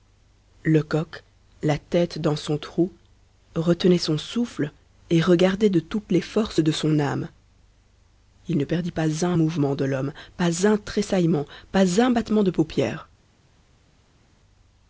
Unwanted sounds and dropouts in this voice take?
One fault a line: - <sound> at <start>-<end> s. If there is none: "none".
none